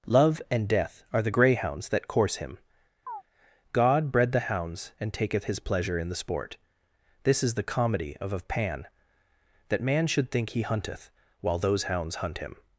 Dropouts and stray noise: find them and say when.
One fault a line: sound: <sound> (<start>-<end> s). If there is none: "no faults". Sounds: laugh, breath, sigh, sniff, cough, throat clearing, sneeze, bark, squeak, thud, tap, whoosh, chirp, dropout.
sound: chirp (3.1-3.2 s)